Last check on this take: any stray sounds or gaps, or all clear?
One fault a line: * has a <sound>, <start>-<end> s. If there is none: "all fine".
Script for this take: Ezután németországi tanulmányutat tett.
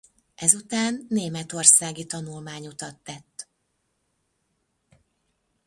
all fine